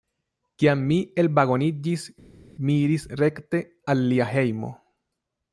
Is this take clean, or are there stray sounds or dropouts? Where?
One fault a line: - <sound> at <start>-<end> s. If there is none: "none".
none